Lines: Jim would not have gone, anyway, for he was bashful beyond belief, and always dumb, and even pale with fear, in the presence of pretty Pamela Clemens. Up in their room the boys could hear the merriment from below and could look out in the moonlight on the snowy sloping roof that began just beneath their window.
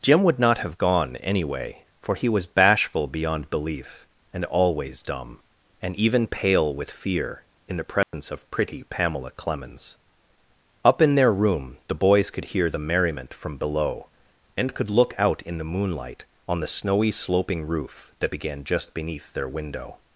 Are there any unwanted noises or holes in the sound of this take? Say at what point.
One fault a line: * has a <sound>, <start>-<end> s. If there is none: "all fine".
* has a dropout, 8.0-8.1 s